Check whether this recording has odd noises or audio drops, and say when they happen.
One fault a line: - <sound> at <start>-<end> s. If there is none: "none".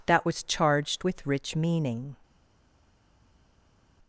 none